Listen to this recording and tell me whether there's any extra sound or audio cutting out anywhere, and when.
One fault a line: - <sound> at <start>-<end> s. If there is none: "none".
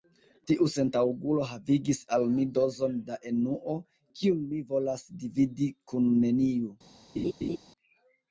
- laugh at 7.2-7.6 s